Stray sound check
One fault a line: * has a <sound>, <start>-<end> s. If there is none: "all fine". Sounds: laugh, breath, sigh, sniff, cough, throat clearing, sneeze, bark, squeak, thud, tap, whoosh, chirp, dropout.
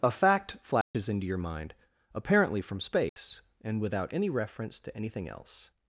* has a dropout, 0.8-0.9 s
* has a dropout, 3.1-3.2 s